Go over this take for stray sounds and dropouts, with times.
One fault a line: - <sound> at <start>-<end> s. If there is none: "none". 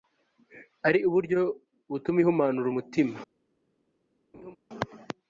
- laugh at 4.3-4.6 s